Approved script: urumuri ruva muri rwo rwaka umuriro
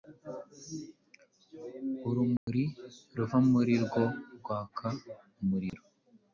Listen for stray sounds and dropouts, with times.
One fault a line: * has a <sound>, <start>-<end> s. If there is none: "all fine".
* has a dropout, 2.4-2.5 s
* has a dropout, 5.7-5.7 s